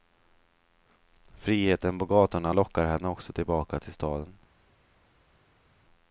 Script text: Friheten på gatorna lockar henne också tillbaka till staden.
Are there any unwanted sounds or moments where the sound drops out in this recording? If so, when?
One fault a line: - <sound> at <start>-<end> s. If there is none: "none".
none